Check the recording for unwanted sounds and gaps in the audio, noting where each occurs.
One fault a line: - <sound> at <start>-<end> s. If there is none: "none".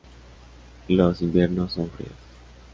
none